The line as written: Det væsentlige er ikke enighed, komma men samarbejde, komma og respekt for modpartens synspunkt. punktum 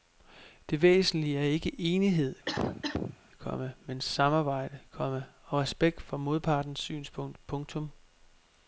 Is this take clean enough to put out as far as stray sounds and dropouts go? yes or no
no